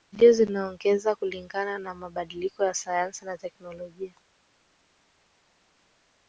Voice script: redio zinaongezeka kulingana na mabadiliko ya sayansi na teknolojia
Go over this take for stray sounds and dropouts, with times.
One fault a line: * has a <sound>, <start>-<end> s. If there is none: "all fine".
all fine